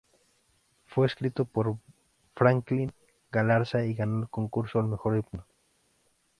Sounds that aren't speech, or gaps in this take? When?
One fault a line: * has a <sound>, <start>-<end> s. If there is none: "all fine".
all fine